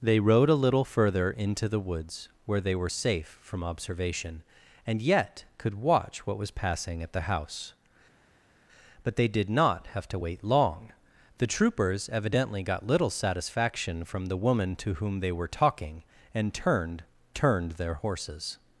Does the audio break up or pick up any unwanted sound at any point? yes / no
no